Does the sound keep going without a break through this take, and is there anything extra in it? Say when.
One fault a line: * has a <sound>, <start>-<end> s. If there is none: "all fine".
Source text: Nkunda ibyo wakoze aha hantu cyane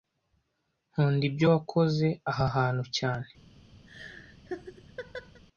* has a laugh, 3.9-5.4 s